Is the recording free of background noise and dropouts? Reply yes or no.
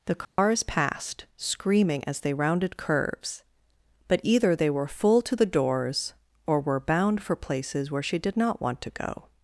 no